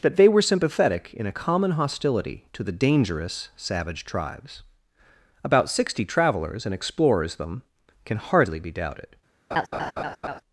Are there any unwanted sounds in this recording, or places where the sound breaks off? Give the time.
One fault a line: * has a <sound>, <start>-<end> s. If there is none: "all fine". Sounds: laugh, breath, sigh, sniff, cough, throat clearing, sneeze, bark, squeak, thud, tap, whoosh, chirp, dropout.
* has a laugh, 9.5-10.4 s